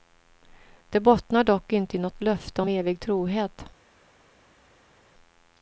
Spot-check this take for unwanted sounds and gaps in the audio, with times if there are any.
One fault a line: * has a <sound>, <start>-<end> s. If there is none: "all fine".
all fine